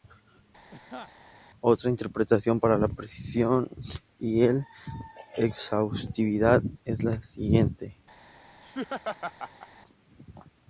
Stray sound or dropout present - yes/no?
yes